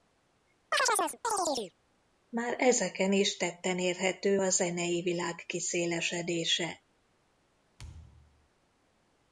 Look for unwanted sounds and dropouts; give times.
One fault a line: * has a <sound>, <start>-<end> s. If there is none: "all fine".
* has a chirp, 0.7-1.7 s
* has a thud, 7.8-8.5 s